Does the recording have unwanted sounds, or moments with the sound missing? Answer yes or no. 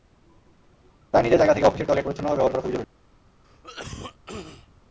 yes